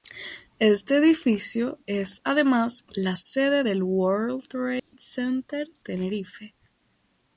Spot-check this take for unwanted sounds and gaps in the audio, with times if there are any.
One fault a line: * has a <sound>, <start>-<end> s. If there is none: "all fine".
* has a dropout, 4.8-4.9 s